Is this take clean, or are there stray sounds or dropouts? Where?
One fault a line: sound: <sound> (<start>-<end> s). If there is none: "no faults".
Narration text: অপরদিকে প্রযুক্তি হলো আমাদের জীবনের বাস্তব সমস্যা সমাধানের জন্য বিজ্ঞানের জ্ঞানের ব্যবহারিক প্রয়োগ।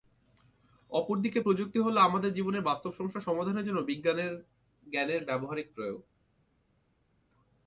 no faults